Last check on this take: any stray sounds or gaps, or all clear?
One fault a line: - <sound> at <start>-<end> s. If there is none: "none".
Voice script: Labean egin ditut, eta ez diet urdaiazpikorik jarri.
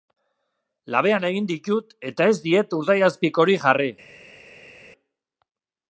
none